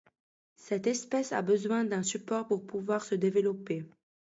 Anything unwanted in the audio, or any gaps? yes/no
no